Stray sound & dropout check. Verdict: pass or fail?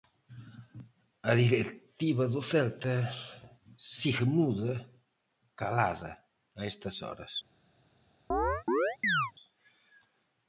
fail